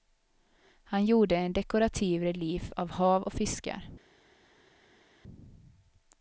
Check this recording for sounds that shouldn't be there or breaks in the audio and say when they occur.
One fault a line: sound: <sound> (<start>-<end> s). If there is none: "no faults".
no faults